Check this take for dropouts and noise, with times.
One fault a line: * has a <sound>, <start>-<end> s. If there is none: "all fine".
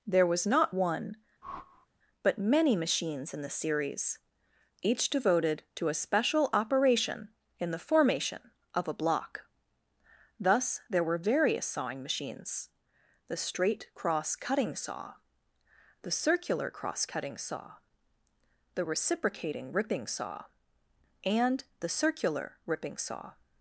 * has a whoosh, 1.4-1.9 s